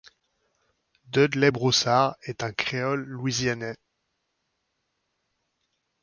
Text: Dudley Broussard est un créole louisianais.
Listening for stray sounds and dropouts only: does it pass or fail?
pass